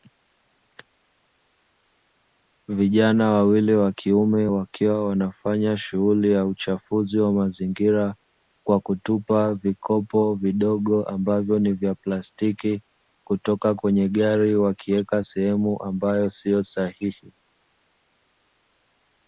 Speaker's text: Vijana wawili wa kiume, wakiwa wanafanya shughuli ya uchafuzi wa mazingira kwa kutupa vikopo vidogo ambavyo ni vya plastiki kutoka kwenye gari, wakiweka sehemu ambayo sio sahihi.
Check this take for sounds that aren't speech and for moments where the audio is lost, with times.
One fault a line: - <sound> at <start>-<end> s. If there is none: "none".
none